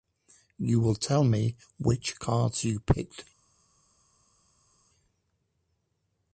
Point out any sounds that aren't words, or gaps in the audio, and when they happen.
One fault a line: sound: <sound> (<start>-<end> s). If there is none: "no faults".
no faults